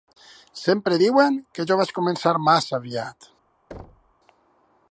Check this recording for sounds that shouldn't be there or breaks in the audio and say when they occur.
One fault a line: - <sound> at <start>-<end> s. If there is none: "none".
- thud at 3.7-4.2 s